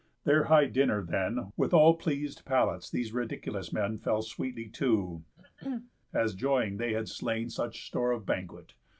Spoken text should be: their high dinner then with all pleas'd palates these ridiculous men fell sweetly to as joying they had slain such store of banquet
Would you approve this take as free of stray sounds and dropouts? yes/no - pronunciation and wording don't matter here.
no